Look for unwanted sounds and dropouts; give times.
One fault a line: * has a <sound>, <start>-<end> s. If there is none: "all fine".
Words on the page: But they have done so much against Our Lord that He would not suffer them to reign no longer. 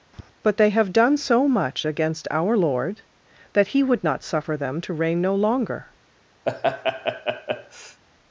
* has a tap, 0.1-0.3 s
* has a laugh, 6.5-8.0 s